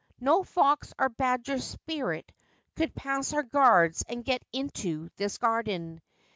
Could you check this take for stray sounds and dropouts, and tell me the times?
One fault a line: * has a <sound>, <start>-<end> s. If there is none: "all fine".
all fine